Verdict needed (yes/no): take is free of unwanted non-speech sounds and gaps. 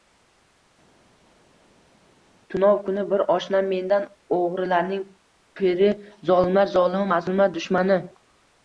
yes